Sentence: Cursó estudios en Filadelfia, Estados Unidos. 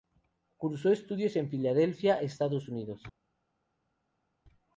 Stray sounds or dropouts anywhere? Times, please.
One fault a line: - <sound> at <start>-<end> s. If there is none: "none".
none